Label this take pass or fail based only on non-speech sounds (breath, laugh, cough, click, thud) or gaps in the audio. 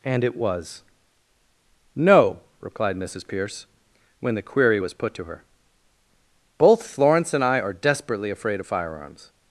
pass